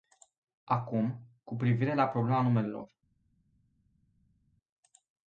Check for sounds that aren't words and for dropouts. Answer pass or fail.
pass